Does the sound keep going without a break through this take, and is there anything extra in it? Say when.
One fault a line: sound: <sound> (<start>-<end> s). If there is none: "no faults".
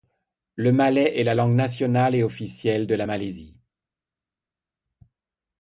no faults